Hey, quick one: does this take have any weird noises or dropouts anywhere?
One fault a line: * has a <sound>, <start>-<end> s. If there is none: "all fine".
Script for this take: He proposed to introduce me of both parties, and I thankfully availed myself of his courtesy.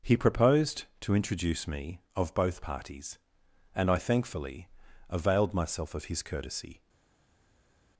all fine